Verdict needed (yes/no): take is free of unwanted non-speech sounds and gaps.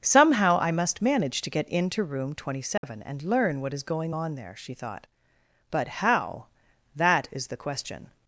no